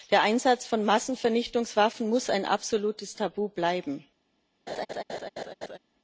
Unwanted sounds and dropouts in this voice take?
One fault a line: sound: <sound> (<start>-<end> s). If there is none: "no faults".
sound: laugh (4.7-5.8 s)